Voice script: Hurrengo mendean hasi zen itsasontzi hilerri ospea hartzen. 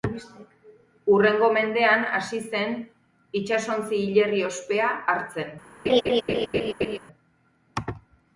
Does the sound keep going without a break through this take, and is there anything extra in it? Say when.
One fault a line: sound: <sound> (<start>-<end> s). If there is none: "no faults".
sound: laugh (5.9-7.0 s)